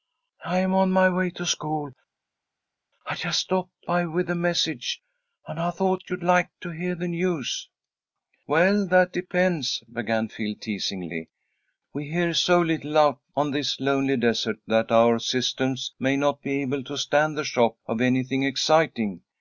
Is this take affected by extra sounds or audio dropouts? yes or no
no